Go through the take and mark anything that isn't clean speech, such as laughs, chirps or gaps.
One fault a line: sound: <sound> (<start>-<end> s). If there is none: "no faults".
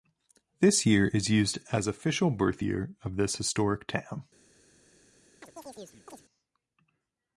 sound: chirp (5.4-6.2 s)